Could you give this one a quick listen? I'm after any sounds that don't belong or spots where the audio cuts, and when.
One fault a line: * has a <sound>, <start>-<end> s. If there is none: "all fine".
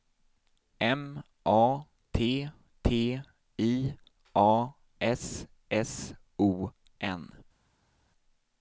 all fine